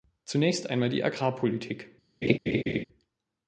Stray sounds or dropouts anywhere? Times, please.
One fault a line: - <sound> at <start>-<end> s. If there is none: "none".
- laugh at 2.2-2.8 s